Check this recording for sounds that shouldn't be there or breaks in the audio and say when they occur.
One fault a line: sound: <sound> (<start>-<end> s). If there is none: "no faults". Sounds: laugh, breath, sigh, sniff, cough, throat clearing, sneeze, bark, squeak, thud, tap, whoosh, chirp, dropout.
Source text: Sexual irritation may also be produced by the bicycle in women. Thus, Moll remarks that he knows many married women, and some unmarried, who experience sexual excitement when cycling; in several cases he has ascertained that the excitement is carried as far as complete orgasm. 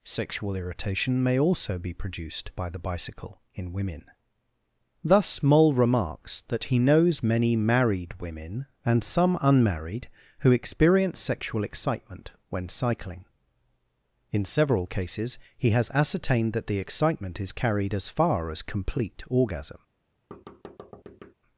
sound: thud (20.3-21.3 s)